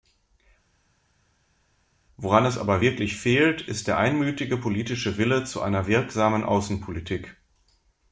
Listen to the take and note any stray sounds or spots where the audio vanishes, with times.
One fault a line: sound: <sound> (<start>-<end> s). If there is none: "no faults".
no faults